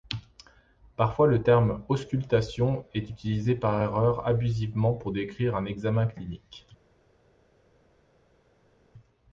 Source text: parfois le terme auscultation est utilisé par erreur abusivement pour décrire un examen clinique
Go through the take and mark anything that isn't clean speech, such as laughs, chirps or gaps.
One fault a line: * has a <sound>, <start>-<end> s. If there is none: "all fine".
all fine